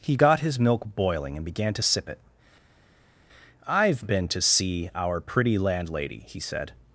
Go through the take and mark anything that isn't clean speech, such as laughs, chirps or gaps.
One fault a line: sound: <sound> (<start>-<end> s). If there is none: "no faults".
no faults